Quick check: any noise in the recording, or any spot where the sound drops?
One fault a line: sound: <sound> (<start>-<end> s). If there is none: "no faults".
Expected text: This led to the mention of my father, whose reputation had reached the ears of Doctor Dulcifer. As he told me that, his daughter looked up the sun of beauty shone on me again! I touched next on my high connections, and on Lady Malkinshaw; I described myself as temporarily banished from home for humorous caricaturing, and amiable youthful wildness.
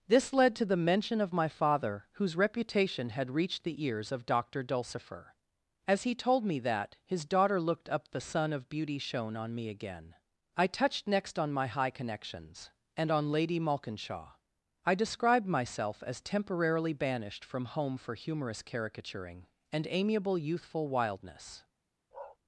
sound: bark (22.1-22.4 s)